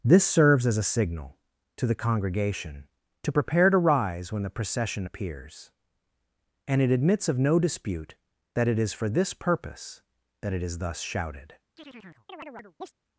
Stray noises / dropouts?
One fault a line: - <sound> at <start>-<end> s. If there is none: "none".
- chirp at 11.8-12.9 s